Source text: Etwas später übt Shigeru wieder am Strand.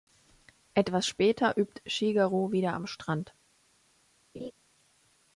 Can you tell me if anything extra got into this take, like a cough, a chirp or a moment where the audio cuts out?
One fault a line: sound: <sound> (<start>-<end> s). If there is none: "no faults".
sound: laugh (4.3-4.5 s)